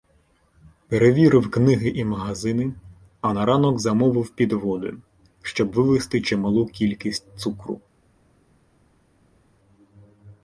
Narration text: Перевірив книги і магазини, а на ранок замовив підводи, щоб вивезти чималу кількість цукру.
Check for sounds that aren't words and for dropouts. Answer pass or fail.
pass